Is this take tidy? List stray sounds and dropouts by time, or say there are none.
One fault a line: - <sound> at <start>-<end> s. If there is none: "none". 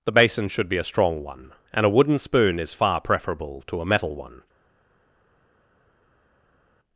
none